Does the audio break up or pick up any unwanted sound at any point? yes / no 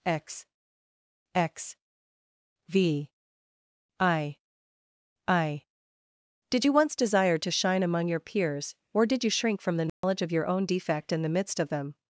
yes